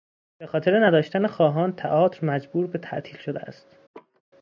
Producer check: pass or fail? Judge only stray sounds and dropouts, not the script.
fail